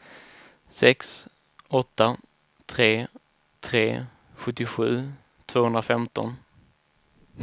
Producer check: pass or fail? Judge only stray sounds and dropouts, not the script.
pass